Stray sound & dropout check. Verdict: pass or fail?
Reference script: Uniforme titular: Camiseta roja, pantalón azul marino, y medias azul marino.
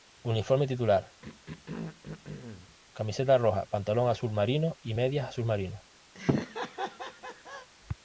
fail